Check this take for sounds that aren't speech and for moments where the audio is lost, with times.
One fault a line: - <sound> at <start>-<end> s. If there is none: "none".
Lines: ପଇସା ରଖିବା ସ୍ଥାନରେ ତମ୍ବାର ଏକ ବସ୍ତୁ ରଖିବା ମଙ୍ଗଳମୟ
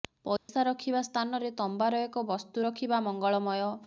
- dropout at 0.4-0.5 s